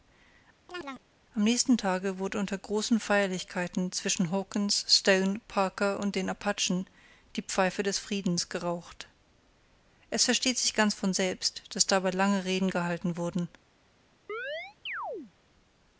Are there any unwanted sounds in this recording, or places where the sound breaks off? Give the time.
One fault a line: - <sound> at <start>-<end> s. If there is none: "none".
- chirp at 0.7-1.0 s
- chirp at 14.3-15.3 s